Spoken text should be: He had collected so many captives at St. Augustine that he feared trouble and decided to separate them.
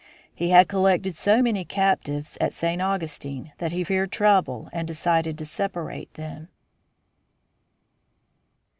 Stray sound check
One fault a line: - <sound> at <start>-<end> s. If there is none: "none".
none